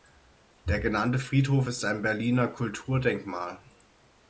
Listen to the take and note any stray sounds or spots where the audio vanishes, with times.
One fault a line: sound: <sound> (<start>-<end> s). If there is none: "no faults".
no faults